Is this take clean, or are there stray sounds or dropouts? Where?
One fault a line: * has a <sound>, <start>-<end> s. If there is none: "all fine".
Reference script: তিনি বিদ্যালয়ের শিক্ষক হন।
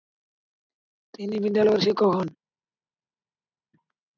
all fine